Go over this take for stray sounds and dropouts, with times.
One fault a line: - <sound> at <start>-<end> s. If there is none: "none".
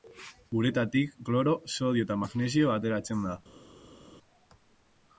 none